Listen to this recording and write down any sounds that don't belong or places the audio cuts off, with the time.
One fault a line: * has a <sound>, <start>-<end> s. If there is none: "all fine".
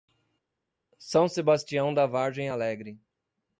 all fine